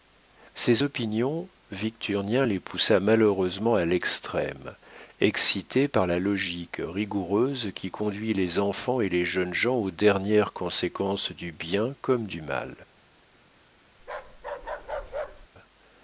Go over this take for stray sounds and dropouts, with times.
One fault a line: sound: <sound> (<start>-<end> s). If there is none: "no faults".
sound: bark (14.0-15.5 s)